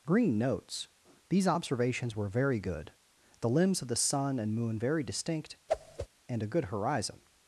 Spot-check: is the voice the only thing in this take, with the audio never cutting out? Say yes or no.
no